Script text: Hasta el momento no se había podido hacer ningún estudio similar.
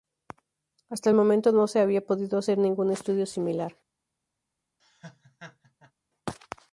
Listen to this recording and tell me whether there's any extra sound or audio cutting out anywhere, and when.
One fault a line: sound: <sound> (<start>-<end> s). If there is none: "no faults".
sound: laugh (4.8-5.9 s)